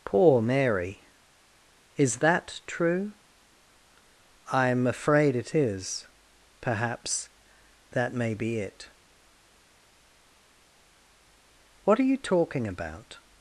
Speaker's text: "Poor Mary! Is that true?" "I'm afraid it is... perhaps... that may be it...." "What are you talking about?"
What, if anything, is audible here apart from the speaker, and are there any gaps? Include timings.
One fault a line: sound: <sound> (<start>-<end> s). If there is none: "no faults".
no faults